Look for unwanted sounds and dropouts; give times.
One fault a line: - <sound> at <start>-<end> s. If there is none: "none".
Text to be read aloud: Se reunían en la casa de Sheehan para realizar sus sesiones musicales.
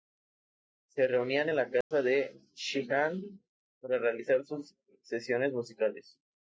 - dropout at 1.8-1.9 s